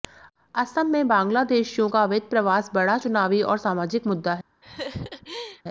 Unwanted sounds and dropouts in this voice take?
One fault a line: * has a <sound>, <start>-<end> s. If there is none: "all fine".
* has a laugh, 4.6-5.6 s